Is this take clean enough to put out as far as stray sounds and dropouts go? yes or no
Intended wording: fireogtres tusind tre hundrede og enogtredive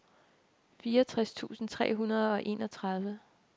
yes